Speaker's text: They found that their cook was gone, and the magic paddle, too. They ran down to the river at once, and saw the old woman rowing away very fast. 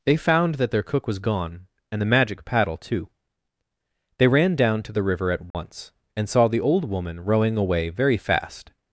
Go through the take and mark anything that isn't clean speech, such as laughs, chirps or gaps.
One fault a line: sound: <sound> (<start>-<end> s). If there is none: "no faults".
sound: dropout (5.5-5.5 s)